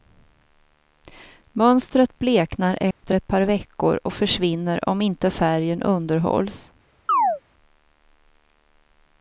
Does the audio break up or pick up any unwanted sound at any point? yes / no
yes